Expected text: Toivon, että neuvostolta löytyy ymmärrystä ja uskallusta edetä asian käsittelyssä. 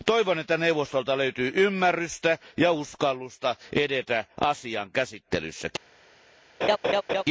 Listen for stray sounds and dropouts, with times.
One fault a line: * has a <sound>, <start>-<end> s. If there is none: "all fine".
* has a laugh, 6.6-7.2 s